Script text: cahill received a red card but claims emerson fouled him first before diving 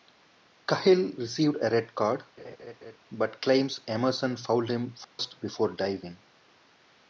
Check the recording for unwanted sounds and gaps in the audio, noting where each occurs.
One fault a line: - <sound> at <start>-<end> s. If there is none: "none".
- laugh at 2.4-3.0 s
- dropout at 5.0-5.2 s